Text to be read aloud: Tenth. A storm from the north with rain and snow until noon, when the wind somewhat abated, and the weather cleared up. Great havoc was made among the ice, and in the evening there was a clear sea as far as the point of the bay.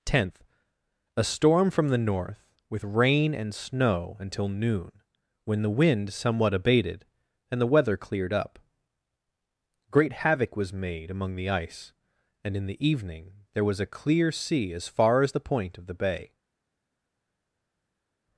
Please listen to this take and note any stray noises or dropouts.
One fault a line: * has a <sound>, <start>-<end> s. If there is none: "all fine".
all fine